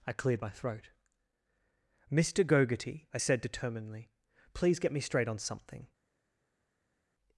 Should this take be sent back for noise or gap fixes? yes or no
no